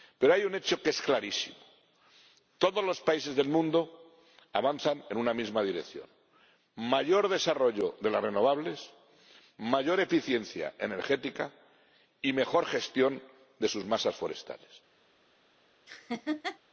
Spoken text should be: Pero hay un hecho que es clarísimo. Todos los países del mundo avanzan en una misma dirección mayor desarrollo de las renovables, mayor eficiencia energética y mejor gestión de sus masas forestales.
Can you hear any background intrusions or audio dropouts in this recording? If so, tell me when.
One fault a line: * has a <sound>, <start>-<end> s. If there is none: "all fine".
* has a laugh, 15.9-16.6 s